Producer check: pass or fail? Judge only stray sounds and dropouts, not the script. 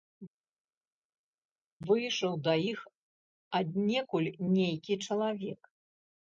pass